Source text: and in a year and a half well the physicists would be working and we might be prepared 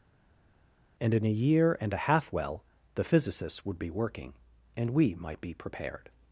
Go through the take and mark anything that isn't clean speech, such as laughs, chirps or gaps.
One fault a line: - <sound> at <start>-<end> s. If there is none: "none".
none